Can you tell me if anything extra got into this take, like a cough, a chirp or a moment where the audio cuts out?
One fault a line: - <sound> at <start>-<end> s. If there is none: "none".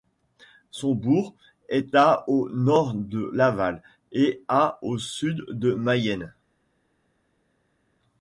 none